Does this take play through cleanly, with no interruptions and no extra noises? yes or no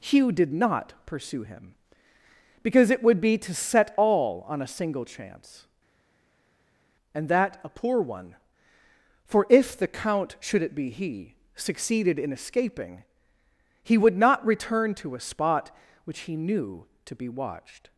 yes